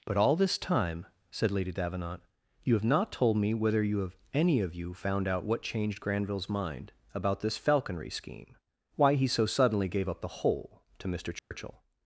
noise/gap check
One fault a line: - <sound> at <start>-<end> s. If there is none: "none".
- dropout at 11.4-11.5 s